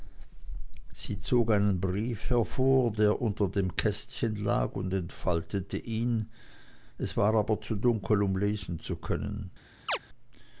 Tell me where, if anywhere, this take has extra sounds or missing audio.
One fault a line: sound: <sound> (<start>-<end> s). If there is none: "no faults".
sound: chirp (9.9-10.0 s)